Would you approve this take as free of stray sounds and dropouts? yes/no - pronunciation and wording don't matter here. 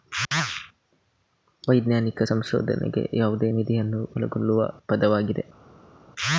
yes